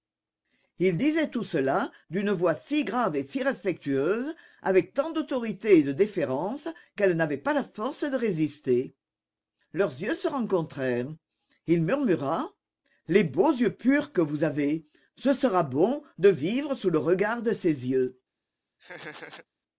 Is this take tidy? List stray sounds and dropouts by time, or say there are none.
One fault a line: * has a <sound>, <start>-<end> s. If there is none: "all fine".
* has a laugh, 18.8-19.5 s